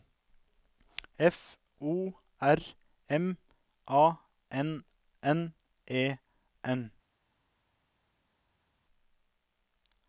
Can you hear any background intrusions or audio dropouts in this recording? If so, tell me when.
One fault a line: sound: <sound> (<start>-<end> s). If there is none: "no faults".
no faults